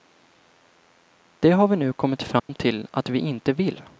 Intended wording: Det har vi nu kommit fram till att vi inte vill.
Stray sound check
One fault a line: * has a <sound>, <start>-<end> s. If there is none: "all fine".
* has a dropout, 2.4-2.5 s